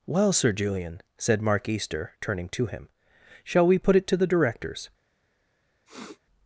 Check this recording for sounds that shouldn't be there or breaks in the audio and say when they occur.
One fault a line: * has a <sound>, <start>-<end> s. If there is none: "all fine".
* has a sniff, 5.9-6.2 s